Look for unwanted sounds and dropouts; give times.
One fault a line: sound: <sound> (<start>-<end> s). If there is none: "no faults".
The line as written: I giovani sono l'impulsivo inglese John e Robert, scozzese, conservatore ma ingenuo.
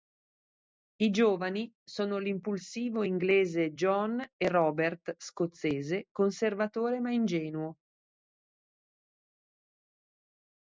no faults